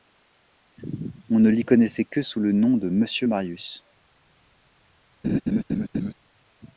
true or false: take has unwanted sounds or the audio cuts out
true